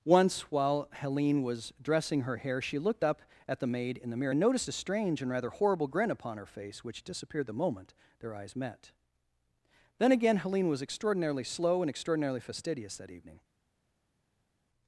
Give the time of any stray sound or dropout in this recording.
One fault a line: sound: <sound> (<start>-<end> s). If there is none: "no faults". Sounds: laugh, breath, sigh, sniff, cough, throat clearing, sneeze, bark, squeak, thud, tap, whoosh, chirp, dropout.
no faults